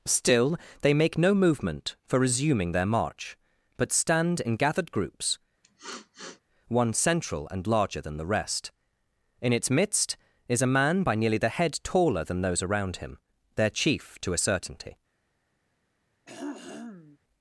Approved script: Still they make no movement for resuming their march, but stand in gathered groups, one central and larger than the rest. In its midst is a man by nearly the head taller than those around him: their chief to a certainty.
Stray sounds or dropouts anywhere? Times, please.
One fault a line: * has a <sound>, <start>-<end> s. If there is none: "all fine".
* has a sniff, 5.6-6.4 s
* has a throat clearing, 16.3-17.2 s